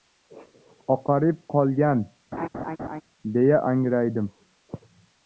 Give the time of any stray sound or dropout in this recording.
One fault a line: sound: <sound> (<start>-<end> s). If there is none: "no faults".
sound: laugh (2.3-3.0 s)